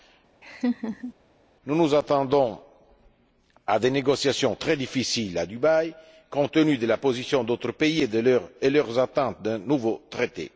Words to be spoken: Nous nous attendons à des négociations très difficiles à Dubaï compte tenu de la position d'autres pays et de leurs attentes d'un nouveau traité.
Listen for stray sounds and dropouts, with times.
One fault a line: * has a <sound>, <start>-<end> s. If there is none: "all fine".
* has a laugh, 0.4-1.1 s